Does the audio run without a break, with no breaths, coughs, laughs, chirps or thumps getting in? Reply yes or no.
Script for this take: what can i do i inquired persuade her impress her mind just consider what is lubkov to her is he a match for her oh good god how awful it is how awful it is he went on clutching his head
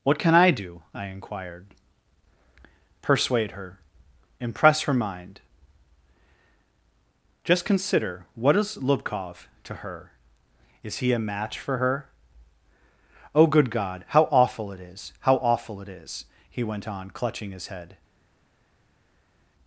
yes